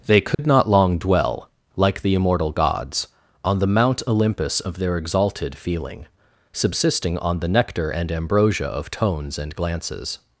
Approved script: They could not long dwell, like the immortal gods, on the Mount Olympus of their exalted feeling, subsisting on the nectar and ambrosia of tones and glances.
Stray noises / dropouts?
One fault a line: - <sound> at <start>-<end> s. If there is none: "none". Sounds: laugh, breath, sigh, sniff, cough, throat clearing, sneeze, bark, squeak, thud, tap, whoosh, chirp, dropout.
- dropout at 0.3-0.4 s